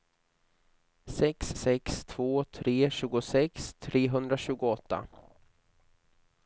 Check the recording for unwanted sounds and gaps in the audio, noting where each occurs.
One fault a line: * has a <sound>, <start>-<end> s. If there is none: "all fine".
all fine